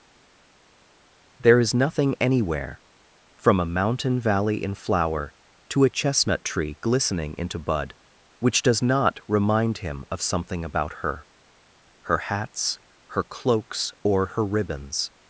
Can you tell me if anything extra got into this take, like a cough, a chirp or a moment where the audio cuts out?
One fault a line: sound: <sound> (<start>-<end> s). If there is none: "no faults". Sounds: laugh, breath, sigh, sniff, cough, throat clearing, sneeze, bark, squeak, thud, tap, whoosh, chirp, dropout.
no faults